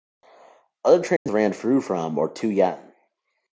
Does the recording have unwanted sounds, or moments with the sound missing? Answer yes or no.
yes